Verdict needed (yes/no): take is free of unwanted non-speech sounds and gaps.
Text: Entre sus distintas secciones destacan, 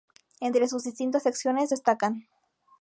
yes